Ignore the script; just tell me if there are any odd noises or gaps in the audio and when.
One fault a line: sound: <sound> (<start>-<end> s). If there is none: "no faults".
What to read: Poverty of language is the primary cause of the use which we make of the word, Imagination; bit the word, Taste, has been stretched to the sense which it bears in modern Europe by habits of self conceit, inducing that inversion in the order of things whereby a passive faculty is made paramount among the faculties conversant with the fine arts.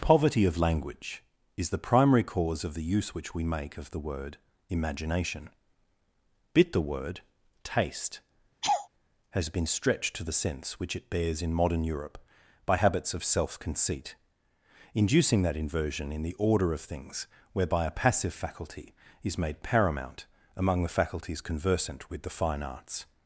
sound: laugh (8.6-8.9 s)